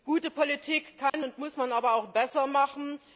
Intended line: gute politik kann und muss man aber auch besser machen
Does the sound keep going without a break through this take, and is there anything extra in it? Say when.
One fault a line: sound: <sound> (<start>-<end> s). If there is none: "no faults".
sound: dropout (1.1-1.1 s)